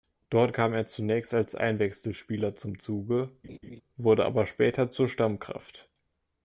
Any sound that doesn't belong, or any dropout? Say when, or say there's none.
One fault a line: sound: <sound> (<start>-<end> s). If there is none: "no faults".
sound: laugh (3.4-3.8 s)